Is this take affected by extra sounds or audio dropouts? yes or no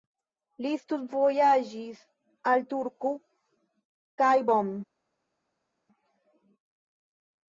no